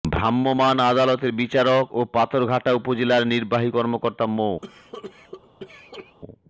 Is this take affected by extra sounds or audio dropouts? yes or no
yes